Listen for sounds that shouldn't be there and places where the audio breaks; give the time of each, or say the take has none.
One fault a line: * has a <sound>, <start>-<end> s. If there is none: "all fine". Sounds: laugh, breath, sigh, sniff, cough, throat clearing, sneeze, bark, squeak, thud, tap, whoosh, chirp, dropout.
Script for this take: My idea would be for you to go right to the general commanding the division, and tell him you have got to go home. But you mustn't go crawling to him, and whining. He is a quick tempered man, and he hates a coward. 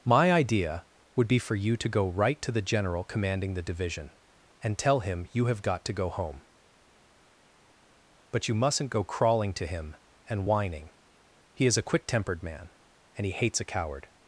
all fine